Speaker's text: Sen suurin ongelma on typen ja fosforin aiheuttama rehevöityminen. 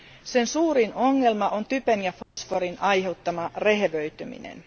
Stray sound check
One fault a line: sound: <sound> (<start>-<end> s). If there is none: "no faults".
sound: dropout (2.2-2.4 s)